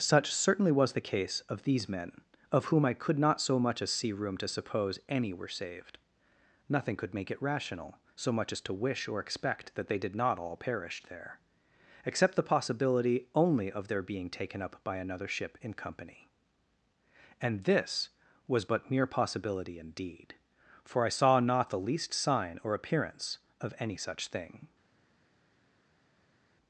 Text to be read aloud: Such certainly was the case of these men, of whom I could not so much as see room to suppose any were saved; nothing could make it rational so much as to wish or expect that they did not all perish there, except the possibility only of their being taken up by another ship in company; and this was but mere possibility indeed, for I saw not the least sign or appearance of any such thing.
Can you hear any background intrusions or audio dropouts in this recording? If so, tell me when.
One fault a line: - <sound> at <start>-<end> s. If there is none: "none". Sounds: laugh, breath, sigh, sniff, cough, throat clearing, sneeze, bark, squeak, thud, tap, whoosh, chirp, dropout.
none